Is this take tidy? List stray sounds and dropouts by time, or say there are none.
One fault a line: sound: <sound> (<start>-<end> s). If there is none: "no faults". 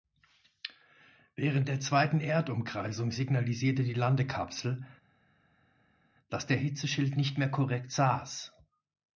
no faults